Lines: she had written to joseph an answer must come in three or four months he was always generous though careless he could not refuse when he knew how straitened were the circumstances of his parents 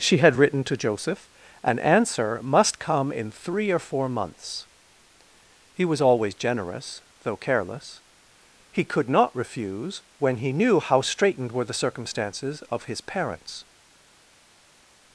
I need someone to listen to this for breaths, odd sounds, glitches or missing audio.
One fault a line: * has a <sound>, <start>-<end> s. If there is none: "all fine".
all fine